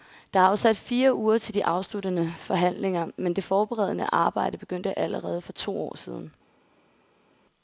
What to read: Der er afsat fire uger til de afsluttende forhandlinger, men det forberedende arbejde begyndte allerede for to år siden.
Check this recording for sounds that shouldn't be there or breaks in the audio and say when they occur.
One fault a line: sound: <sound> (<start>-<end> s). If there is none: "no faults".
no faults